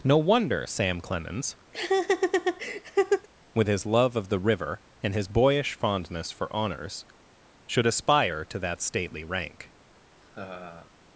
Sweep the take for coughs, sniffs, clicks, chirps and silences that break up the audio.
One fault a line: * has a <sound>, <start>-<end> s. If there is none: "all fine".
* has a laugh, 1.7-3.3 s
* has a laugh, 10.2-10.9 s